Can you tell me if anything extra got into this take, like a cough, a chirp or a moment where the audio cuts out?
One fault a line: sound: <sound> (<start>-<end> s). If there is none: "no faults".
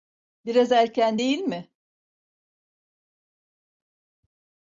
no faults